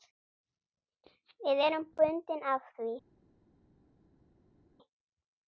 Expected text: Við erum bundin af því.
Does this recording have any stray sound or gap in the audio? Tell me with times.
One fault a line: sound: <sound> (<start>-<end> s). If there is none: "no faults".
no faults